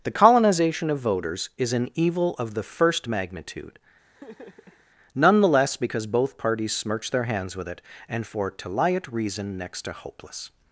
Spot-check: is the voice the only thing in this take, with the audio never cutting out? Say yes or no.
no